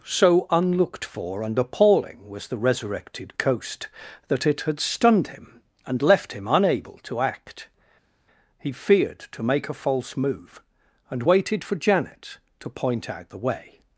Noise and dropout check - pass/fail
pass